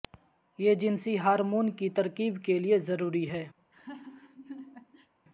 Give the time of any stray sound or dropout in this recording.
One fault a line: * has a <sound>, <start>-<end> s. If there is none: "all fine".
* has a laugh, 3.6-5.1 s